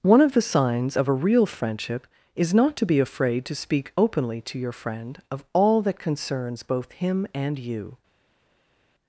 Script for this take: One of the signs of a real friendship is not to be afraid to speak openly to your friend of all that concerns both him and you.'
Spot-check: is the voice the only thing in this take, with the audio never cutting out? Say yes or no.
yes